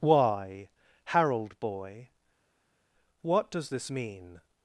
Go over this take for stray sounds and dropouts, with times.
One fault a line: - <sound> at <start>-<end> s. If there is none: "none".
none